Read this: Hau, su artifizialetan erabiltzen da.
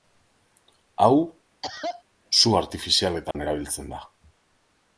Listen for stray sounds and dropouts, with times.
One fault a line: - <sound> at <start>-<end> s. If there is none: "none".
- cough at 1.6-2.0 s
- dropout at 3.3-3.3 s